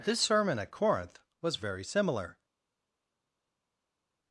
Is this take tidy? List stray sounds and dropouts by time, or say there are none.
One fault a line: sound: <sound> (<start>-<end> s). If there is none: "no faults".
no faults